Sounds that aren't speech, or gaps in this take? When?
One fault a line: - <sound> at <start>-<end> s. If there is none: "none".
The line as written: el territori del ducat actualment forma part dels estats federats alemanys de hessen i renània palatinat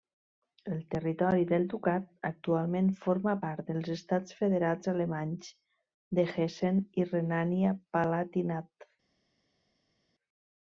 none